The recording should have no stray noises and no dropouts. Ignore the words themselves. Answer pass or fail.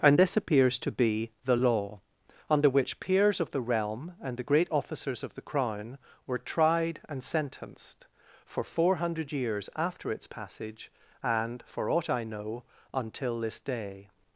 pass